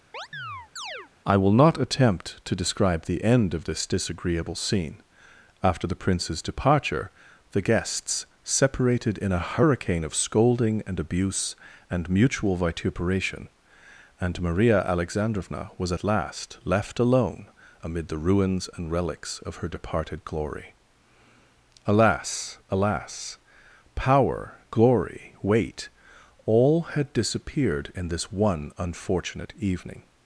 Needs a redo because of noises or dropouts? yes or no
yes